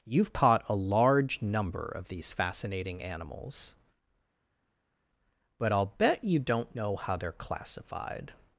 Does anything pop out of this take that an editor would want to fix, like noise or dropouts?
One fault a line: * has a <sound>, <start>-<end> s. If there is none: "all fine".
all fine